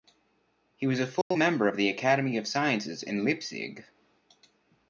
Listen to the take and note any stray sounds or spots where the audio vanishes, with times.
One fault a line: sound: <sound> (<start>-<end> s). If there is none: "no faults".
sound: dropout (1.2-1.3 s)